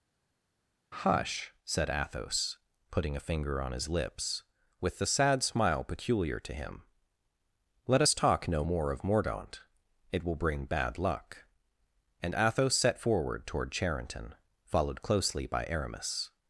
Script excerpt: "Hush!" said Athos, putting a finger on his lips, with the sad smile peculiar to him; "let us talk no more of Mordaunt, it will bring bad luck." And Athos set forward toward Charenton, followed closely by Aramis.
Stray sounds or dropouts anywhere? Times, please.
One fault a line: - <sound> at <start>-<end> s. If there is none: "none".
none